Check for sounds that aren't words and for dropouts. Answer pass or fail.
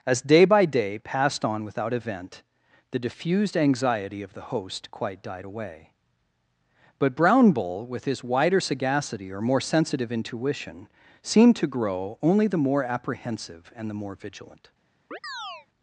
fail